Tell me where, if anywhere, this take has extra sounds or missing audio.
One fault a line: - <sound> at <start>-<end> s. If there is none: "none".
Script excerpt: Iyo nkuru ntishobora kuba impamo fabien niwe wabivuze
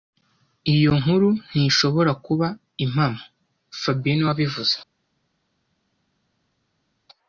none